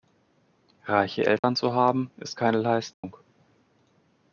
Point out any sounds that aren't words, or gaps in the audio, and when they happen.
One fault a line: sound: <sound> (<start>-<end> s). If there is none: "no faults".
sound: dropout (1.4-1.4 s)
sound: dropout (2.9-3.0 s)